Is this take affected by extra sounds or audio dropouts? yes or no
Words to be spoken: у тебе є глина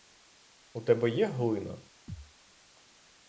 yes